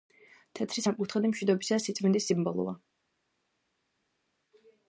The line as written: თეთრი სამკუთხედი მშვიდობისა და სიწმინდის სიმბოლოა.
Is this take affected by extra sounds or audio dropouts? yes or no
no